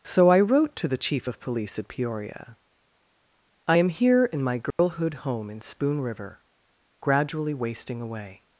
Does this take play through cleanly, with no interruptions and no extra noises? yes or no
no